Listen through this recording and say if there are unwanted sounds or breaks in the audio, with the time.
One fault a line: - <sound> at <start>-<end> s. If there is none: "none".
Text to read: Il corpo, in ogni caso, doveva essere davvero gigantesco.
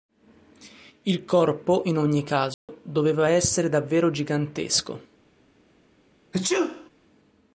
- dropout at 2.5-2.7 s
- sneeze at 6.3-6.9 s